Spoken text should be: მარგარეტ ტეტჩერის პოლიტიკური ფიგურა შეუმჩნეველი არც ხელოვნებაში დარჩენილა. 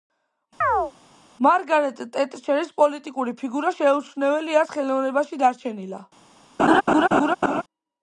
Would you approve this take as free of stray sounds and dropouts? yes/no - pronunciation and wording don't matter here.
no